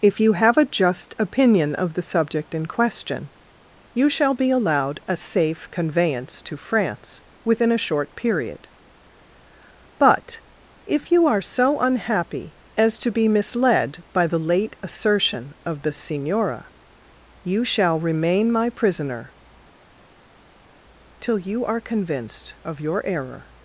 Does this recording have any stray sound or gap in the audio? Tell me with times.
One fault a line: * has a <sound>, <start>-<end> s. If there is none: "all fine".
all fine